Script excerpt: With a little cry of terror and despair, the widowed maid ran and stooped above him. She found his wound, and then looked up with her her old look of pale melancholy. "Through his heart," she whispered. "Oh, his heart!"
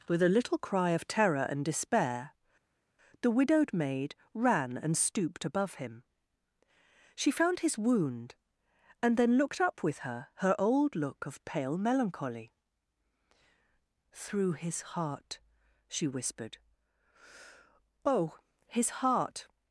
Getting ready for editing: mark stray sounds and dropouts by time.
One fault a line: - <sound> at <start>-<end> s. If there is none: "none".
none